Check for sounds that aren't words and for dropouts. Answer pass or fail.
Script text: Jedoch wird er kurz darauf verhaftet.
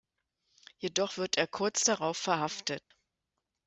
fail